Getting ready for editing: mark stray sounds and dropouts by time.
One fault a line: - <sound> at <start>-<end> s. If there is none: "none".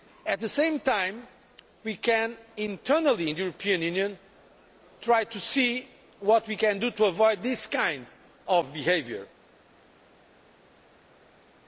none